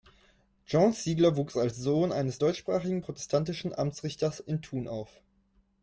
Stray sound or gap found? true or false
false